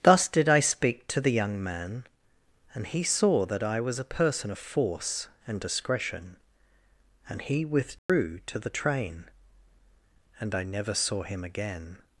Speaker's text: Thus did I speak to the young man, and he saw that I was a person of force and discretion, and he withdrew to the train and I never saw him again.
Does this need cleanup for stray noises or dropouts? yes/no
yes